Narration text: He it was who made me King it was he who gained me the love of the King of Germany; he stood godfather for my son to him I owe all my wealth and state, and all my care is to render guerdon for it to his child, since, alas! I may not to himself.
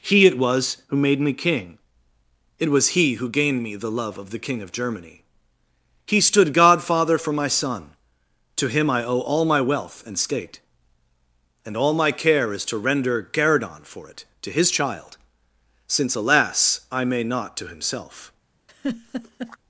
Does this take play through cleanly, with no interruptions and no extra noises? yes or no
no